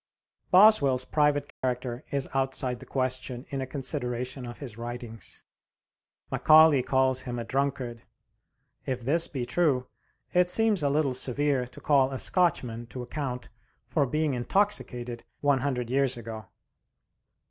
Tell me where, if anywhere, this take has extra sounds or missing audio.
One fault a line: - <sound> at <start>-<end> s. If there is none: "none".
- dropout at 1.5-1.6 s